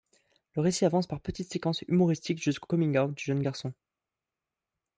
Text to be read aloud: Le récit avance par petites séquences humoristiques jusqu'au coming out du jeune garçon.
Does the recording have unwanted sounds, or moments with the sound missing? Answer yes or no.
no